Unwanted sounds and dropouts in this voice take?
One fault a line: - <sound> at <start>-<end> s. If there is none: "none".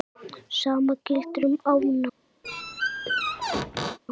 - squeak at 2.4-4.0 s